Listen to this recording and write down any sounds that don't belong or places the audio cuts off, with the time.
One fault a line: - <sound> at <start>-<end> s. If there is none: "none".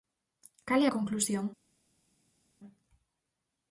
none